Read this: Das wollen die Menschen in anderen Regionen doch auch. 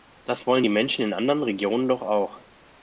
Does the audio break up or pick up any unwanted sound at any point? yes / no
no